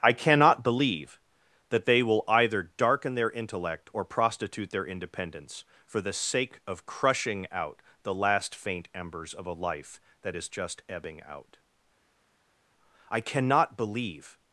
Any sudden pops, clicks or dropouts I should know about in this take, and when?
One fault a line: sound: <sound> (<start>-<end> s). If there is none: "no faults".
no faults